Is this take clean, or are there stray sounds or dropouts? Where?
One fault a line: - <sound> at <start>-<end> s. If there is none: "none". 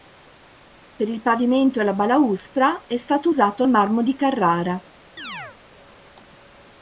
- chirp at 5.2-5.6 s